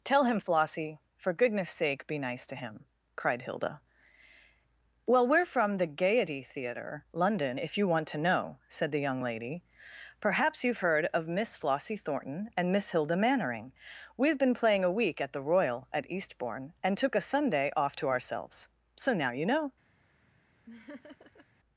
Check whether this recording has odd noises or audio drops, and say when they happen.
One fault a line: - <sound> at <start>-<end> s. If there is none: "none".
- laugh at 20.7-21.5 s